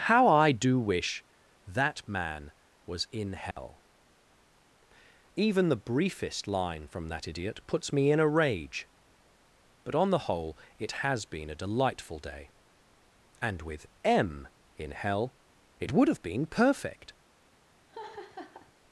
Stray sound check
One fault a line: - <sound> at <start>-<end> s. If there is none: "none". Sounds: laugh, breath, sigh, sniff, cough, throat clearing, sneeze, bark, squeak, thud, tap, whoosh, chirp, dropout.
- dropout at 3.5-3.6 s
- laugh at 17.9-18.7 s